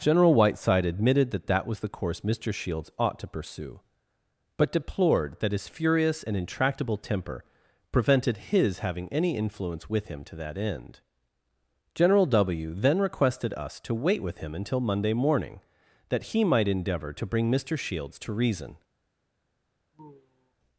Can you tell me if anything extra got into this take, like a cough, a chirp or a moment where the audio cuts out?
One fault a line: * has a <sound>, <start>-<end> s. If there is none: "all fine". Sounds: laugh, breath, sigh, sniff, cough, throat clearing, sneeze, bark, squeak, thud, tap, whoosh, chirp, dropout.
* has a sigh, 19.9-20.5 s